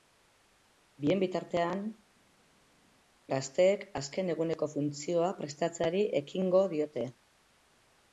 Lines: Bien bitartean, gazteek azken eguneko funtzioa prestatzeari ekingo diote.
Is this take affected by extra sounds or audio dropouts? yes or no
no